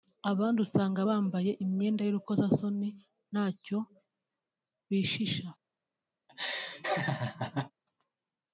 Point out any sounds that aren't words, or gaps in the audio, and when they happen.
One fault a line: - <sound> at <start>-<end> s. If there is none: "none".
- laugh at 6.3-7.7 s